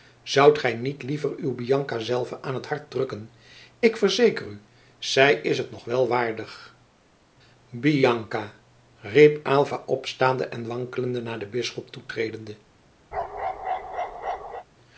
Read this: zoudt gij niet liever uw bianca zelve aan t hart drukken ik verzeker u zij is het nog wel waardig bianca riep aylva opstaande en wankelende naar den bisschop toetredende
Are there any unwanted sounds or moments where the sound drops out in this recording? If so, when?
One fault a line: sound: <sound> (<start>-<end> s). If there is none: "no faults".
sound: bark (13.1-14.6 s)